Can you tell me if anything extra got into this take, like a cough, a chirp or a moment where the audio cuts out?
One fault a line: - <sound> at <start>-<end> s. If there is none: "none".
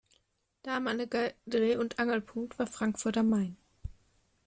none